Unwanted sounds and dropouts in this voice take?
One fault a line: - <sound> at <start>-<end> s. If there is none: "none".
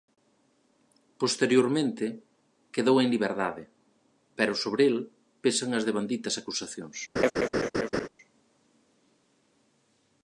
- laugh at 7.2-8.1 s